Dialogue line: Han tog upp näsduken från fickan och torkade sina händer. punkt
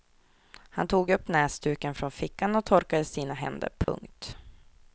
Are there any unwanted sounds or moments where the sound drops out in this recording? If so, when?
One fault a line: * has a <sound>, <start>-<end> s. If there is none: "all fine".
* has a dropout, 3.8-3.9 s